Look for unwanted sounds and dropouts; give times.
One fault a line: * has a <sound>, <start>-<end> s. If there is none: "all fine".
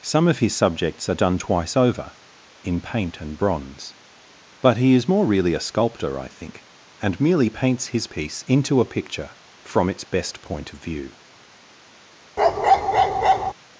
* has a bark, 12.4-13.5 s